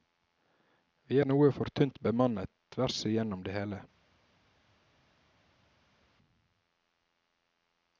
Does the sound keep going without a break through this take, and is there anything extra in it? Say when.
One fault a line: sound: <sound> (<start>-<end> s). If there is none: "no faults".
no faults